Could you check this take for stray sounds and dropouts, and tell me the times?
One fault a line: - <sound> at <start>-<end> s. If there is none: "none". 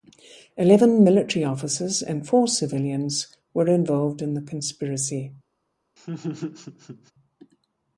- laugh at 6.0-7.1 s